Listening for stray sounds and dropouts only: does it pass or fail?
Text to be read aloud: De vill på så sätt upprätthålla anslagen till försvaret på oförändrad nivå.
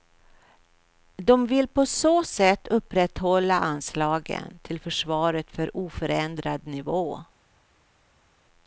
pass